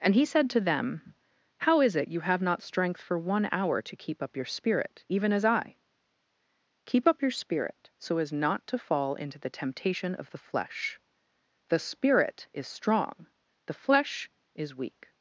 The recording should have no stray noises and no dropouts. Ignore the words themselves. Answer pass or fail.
pass